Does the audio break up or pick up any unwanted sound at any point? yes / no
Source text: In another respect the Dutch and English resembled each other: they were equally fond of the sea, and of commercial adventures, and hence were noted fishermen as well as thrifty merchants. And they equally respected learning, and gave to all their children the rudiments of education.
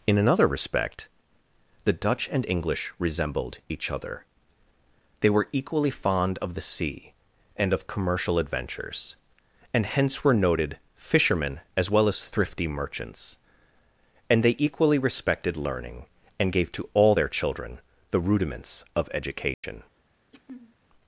yes